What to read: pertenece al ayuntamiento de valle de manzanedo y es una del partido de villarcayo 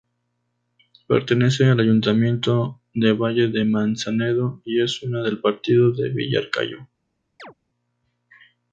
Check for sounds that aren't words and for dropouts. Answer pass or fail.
fail